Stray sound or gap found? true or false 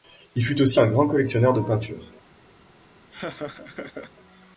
true